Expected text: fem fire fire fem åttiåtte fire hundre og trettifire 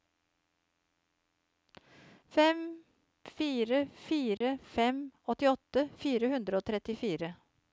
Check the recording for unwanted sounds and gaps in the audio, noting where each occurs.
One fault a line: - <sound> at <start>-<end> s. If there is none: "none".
- dropout at 4.4-4.4 s